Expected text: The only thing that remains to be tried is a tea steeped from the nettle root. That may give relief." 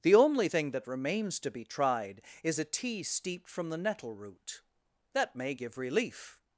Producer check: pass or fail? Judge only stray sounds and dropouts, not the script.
pass